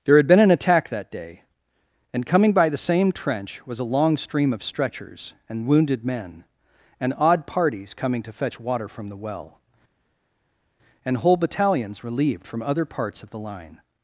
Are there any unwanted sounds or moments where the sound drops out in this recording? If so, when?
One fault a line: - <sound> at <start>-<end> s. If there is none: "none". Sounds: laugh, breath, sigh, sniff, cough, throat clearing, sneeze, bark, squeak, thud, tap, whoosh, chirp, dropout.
none